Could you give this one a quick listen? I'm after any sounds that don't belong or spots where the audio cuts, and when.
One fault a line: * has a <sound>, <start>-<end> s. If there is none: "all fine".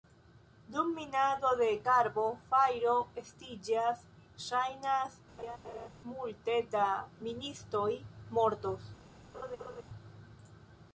* has a laugh, 5.4-5.9 s
* has a laugh, 9.3-9.8 s